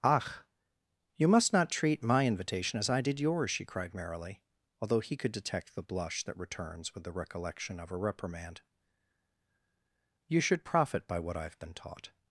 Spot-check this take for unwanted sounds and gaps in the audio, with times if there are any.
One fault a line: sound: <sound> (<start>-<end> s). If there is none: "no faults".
no faults